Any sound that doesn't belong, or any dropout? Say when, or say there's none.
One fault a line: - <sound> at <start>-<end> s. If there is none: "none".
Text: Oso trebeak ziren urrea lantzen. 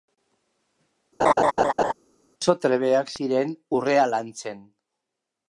- laugh at 1.2-1.9 s